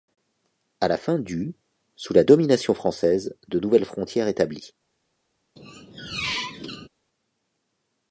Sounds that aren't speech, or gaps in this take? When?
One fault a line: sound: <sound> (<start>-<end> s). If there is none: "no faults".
sound: squeak (5.6-6.9 s)